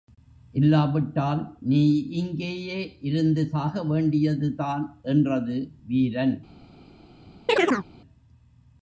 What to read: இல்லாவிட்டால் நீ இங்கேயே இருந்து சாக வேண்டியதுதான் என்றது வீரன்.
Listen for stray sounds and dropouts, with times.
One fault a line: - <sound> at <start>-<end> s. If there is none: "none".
- chirp at 7.5-7.9 s